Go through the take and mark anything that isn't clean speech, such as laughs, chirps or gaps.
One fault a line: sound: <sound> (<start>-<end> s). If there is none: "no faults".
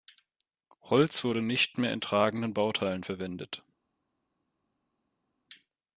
no faults